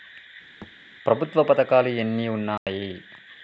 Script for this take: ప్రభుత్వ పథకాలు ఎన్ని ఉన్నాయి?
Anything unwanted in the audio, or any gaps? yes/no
yes